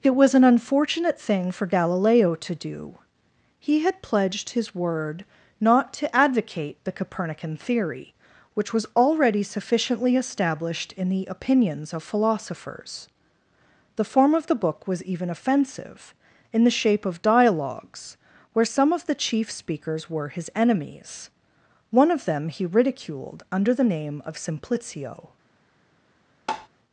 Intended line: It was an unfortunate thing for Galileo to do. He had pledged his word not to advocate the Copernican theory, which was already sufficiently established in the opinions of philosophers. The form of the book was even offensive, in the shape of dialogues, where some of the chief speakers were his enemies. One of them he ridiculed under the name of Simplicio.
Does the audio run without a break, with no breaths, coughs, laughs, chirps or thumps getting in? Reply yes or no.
no